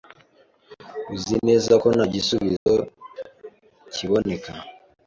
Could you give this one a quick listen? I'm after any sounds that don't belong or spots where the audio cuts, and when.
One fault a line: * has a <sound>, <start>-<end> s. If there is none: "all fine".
* has a dropout, 2.6-2.7 s